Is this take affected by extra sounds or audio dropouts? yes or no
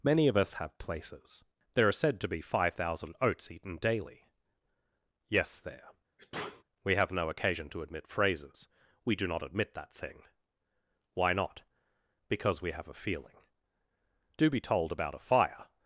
yes